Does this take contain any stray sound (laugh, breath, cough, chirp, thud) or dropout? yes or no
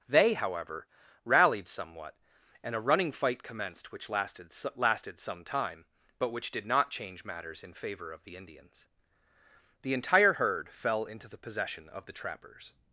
no